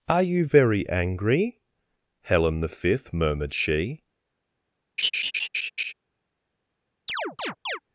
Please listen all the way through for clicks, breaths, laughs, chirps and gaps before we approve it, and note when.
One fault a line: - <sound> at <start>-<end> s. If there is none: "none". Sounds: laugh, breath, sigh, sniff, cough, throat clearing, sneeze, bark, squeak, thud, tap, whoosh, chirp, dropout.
- laugh at 5.0-5.9 s
- chirp at 7.1-7.8 s